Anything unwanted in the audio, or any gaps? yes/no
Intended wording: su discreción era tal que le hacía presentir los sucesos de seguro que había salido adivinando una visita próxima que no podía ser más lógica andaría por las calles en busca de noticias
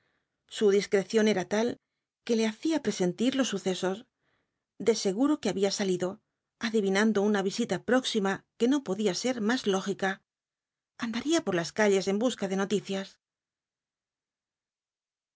no